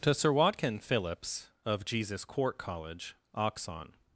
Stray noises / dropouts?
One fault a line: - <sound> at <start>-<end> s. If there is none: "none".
none